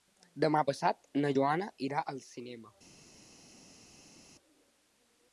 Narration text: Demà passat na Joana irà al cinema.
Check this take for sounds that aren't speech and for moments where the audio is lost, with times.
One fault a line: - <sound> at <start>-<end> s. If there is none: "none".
none